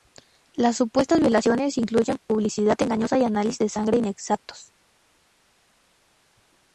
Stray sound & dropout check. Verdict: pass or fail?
pass